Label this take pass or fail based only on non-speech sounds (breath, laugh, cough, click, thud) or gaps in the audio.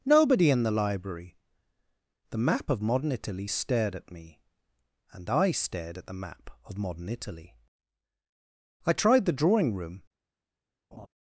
fail